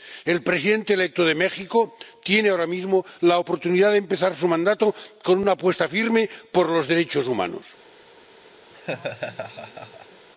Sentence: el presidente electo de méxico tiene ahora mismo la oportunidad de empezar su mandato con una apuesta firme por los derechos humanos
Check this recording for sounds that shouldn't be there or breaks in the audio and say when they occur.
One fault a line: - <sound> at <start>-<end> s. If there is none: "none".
- laugh at 8.7-10.3 s